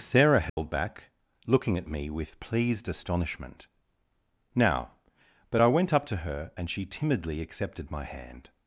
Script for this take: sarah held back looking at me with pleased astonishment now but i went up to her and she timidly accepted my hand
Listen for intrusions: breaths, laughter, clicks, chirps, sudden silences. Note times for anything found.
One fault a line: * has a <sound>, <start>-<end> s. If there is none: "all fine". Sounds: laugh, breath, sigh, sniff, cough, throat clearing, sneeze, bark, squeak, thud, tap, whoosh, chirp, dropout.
* has a dropout, 0.5-0.6 s